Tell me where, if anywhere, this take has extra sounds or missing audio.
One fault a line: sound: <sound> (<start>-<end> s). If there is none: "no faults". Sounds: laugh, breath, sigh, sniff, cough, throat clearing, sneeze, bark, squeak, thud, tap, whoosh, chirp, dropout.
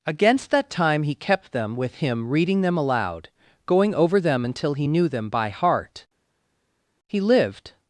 no faults